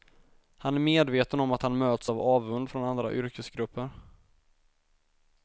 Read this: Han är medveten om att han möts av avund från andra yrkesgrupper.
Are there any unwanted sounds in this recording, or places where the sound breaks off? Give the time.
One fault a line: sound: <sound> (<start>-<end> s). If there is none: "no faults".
no faults